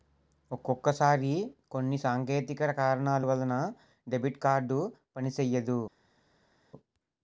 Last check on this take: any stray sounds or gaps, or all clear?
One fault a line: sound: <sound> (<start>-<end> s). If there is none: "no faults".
no faults